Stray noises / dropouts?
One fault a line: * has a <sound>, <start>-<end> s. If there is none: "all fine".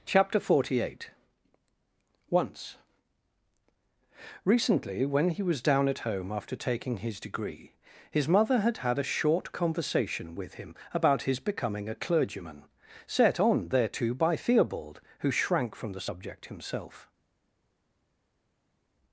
all fine